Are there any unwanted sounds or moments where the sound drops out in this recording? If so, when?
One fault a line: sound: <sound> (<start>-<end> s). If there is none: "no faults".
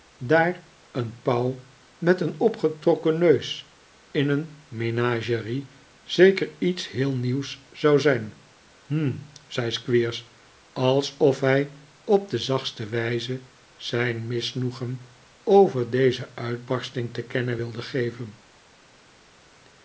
no faults